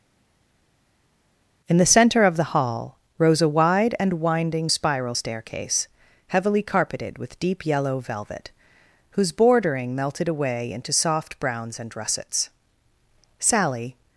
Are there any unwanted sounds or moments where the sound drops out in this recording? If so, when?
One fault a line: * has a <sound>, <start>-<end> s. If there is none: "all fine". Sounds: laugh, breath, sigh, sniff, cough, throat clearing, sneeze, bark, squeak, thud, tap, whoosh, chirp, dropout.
all fine